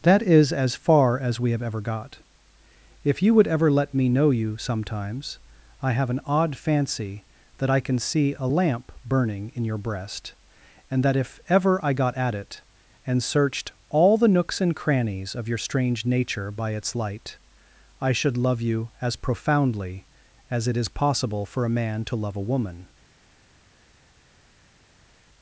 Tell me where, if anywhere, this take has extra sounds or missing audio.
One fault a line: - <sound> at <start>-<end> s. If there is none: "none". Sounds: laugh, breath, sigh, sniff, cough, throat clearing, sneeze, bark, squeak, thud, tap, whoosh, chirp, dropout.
none